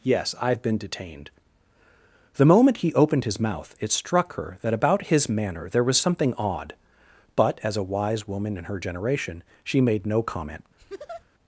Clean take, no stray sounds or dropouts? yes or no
no